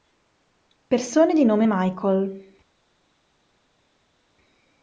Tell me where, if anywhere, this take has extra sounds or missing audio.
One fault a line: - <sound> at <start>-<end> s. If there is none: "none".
none